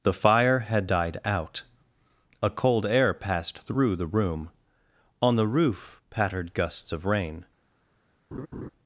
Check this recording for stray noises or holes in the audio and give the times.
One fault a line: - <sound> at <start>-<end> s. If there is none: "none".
- laugh at 8.3-8.7 s